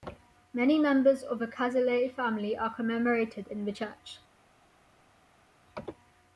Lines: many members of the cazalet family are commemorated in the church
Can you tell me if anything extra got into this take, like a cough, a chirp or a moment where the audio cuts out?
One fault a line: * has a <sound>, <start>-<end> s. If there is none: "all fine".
all fine